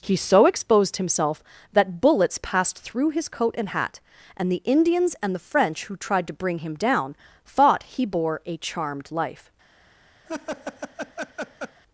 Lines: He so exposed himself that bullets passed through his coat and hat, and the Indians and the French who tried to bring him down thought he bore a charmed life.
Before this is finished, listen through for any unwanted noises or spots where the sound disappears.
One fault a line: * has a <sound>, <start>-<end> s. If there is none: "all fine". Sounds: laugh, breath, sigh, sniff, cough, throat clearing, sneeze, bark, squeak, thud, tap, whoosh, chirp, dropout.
* has a laugh, 10.3-11.8 s